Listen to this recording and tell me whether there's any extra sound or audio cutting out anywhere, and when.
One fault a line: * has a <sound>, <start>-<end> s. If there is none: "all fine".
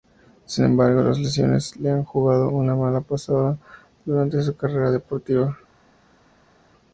all fine